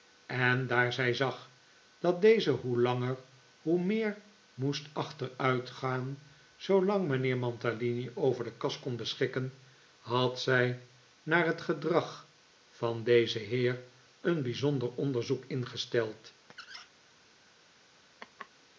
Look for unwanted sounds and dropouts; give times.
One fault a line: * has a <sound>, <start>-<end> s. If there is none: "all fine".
* has a squeak, 16.5-16.9 s
* has a laugh, 18.2-18.5 s